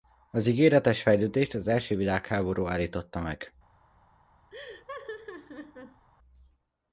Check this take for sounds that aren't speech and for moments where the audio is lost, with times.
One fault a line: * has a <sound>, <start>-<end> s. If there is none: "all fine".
* has a laugh, 4.5-6.1 s